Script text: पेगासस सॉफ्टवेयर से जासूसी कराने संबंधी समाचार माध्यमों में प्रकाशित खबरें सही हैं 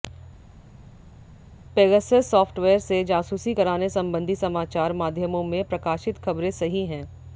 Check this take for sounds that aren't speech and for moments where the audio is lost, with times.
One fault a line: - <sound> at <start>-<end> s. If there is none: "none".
none